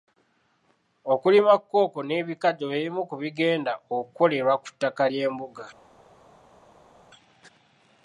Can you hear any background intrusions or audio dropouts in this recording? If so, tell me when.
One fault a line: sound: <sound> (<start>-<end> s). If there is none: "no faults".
no faults